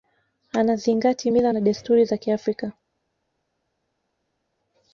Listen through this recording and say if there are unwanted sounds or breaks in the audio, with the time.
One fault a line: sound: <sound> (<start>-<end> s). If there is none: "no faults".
no faults